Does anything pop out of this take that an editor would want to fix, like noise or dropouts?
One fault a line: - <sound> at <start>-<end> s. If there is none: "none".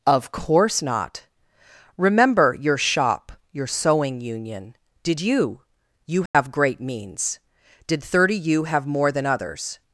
- dropout at 6.3-6.3 s